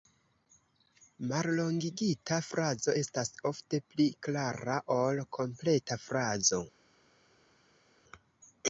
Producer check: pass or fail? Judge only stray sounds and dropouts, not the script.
pass